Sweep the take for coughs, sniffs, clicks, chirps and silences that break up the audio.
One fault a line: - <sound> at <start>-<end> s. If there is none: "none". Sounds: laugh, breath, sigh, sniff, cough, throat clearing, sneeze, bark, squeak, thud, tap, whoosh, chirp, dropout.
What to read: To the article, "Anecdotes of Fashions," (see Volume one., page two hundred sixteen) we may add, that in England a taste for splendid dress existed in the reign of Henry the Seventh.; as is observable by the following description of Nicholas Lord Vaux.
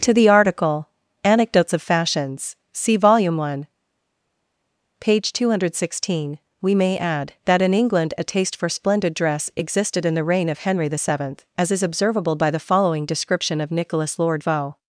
none